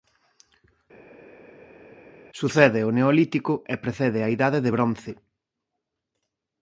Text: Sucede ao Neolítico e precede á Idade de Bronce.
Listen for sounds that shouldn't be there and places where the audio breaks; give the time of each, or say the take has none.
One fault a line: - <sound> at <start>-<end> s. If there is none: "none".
none